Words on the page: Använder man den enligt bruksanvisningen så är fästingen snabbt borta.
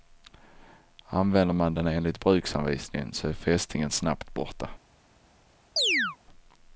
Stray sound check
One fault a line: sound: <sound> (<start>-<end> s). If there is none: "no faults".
sound: chirp (5.8-6.2 s)